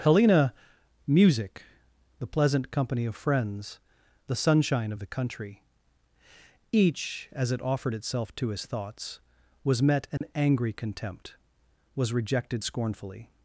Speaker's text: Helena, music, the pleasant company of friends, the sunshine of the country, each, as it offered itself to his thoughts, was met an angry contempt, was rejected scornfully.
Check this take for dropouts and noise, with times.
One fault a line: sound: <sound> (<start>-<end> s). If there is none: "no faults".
sound: dropout (10.2-10.2 s)